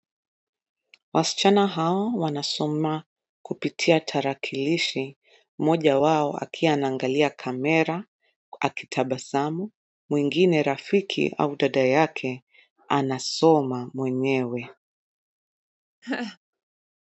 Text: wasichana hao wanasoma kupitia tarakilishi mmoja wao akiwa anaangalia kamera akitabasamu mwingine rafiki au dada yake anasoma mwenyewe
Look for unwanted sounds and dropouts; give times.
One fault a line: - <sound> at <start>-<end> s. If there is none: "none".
- laugh at 16.0-16.4 s